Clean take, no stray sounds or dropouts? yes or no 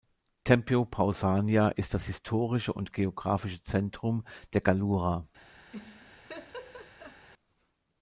no